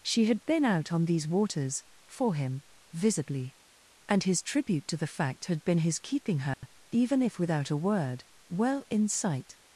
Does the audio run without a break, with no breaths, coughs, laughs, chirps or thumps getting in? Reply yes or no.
no